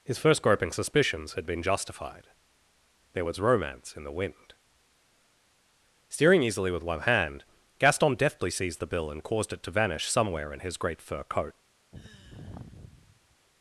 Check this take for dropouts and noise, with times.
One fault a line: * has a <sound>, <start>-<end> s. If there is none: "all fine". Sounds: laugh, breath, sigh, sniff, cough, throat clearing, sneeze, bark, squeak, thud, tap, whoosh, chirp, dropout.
* has a sigh, 11.9-13.4 s